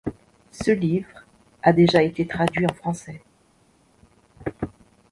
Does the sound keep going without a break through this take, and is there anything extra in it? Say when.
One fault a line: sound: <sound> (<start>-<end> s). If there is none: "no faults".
no faults